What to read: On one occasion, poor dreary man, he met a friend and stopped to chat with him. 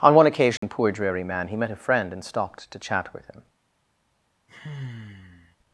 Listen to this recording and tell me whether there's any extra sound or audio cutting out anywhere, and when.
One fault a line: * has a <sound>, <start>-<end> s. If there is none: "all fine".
* has a dropout, 0.6-0.6 s
* has a sigh, 4.5-5.6 s